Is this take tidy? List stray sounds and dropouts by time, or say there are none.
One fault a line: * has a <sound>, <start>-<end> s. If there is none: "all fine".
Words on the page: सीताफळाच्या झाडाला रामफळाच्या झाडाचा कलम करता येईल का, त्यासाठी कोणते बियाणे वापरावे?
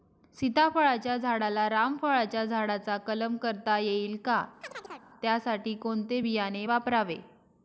* has a chirp, 4.6-5.1 s